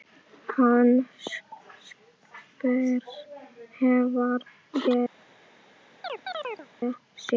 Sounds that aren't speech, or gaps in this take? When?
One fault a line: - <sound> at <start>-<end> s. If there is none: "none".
- chirp at 6.0-6.7 s